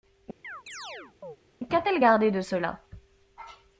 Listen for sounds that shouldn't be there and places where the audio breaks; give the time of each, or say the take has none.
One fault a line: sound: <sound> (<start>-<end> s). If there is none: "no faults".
sound: chirp (0.4-1.4 s)